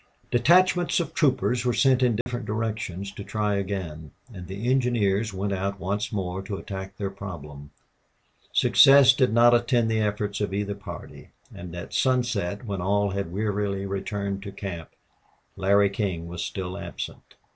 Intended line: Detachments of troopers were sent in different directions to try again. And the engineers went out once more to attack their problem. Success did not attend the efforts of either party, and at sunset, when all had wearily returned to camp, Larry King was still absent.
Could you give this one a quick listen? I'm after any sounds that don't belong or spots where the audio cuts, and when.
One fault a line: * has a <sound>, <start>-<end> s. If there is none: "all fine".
* has a dropout, 2.2-2.3 s